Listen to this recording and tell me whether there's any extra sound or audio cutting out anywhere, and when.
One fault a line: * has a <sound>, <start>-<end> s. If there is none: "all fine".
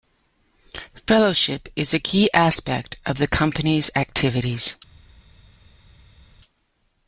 all fine